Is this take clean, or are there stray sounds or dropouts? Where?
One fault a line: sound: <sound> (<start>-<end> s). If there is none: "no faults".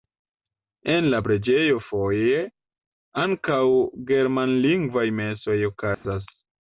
sound: dropout (5.9-6.0 s)